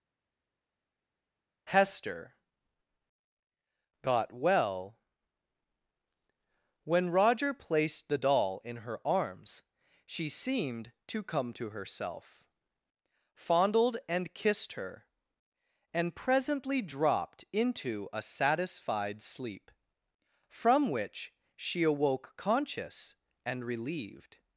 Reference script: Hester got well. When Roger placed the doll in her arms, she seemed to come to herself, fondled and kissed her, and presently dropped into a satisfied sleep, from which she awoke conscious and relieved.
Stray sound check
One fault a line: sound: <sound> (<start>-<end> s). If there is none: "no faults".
no faults